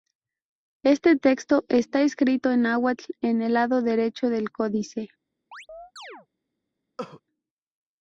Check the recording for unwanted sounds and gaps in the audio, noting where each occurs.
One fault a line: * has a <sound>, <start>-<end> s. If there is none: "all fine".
* has a chirp, 5.5-6.3 s
* has a cough, 7.0-7.2 s